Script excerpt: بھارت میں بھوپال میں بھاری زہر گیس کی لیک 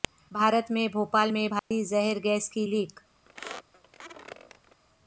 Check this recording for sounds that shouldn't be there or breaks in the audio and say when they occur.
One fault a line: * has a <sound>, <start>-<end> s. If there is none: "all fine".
* has a dropout, 1.6-1.7 s
* has a squeak, 3.3-4.8 s